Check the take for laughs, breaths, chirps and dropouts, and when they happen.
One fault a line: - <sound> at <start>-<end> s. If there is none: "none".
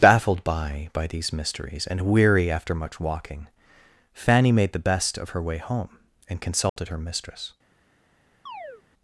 - dropout at 6.7-6.8 s
- chirp at 8.5-8.8 s